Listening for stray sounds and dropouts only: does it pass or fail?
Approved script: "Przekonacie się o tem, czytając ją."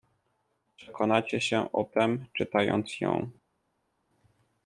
pass